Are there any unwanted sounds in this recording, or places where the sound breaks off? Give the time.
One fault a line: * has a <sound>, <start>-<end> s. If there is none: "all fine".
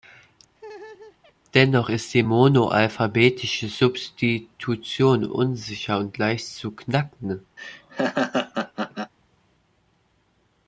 * has a laugh, 0.6-1.3 s
* has a laugh, 7.6-9.1 s